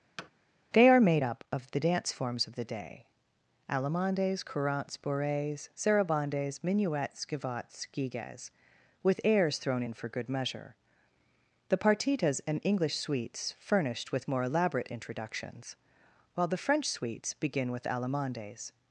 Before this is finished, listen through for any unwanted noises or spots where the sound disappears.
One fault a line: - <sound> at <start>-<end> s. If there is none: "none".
- thud at 0.2-0.3 s